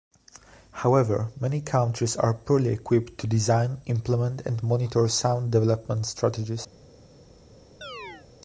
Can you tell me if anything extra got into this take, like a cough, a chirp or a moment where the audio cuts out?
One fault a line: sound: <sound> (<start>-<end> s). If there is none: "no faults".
sound: chirp (7.8-8.3 s)